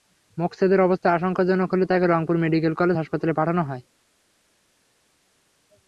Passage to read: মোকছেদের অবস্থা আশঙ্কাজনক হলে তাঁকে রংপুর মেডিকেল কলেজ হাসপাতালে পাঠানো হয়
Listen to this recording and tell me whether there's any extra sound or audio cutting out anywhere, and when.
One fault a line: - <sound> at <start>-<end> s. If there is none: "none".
none